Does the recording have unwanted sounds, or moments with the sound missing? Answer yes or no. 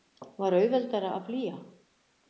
no